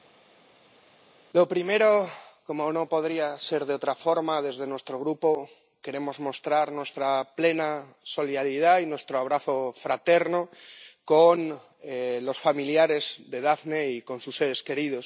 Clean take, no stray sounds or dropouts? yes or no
yes